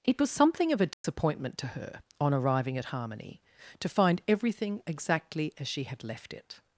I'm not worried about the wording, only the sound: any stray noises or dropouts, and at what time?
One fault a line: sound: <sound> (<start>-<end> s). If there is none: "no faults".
sound: dropout (0.9-1.0 s)